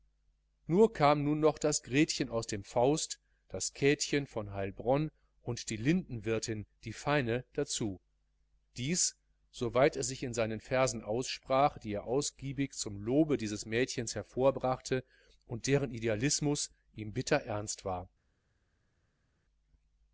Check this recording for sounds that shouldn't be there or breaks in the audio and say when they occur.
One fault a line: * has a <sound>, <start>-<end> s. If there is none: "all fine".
all fine